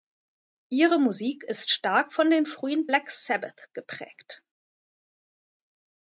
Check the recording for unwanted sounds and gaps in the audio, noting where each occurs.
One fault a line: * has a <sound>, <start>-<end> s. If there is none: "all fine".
all fine